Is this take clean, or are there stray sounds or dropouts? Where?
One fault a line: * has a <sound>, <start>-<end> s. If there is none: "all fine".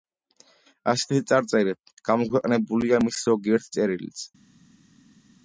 all fine